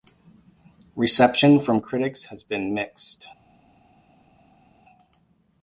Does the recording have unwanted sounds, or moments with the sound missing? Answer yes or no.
no